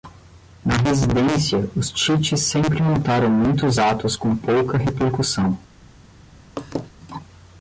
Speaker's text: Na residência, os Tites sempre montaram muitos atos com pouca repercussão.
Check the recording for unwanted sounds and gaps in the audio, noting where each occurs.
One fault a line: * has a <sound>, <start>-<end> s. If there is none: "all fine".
* has a laugh, 6.6-6.9 s